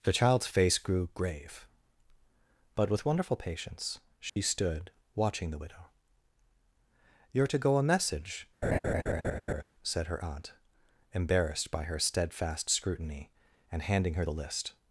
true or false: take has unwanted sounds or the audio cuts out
true